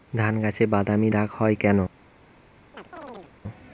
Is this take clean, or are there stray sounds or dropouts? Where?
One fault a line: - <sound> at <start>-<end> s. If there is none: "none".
- chirp at 2.7-3.3 s